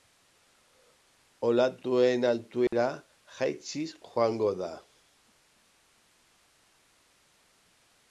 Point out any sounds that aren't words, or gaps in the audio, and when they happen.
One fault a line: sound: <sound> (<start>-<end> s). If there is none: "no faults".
sound: dropout (2.7-2.7 s)